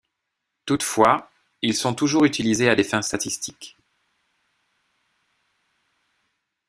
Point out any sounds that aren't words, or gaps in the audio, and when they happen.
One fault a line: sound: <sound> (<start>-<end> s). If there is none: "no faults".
no faults